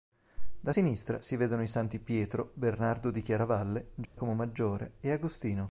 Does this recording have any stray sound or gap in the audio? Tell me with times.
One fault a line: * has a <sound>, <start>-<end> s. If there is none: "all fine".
* has a dropout, 4.0-4.2 s